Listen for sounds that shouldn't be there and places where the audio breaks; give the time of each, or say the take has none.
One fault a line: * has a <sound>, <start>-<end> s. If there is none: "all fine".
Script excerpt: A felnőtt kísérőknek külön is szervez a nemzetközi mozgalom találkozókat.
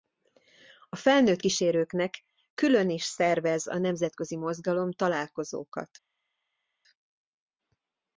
all fine